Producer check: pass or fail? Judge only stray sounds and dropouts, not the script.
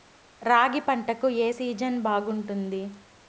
pass